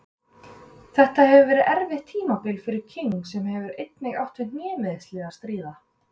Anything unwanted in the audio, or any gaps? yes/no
no